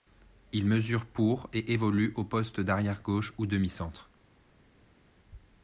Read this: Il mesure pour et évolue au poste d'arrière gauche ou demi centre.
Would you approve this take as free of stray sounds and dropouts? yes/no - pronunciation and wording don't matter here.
yes